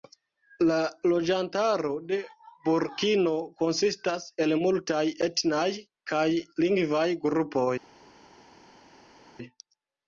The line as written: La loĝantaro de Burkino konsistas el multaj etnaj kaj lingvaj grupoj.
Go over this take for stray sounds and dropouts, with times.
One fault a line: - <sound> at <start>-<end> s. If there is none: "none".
none